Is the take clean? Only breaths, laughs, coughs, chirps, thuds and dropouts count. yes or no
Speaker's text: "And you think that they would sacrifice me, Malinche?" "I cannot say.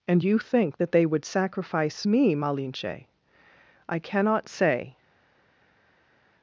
yes